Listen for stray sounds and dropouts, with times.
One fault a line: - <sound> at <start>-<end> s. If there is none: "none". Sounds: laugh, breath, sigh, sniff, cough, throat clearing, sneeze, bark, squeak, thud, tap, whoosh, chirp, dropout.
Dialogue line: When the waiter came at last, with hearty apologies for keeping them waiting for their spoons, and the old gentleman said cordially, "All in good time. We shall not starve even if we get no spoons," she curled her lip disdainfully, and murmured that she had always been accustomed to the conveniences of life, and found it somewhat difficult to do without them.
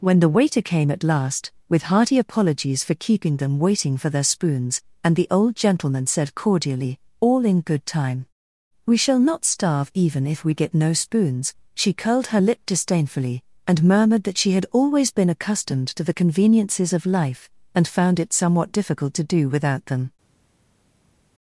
none